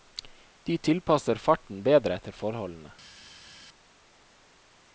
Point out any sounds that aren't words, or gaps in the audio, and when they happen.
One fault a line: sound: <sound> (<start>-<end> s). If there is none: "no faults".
no faults